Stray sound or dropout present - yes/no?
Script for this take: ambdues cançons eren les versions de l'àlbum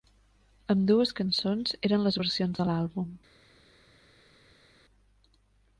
no